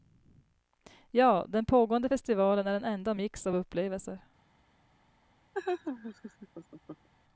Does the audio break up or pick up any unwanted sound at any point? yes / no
yes